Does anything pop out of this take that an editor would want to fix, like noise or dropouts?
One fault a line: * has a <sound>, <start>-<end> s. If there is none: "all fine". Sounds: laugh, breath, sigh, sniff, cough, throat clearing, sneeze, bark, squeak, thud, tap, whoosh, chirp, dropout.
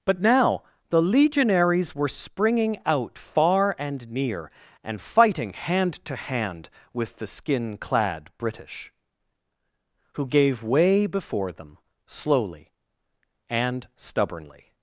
all fine